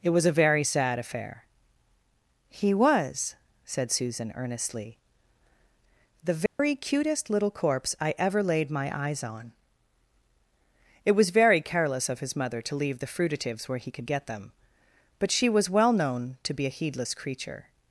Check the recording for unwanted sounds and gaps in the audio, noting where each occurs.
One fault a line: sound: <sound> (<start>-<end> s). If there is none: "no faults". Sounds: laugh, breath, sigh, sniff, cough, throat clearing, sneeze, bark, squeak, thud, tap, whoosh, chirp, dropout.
sound: dropout (6.5-6.6 s)